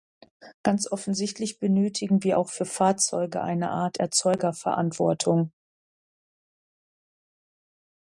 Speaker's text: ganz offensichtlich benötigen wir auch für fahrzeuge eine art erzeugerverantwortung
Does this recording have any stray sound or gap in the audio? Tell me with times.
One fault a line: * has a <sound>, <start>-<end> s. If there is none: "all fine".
all fine